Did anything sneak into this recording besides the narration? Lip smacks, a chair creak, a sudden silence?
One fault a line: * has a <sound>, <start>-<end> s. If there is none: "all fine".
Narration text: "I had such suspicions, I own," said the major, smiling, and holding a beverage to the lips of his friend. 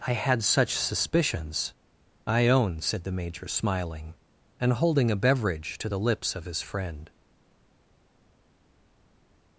all fine